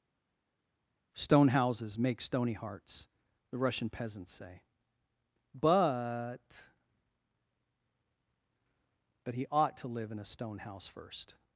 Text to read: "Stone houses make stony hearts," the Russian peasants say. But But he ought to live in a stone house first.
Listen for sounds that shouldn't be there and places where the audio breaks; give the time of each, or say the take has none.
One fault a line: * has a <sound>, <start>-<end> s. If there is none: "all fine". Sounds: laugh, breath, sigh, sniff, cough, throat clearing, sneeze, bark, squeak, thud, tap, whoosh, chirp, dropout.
all fine